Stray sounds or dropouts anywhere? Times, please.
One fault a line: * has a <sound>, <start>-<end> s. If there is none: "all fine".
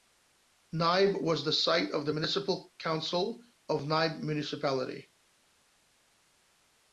all fine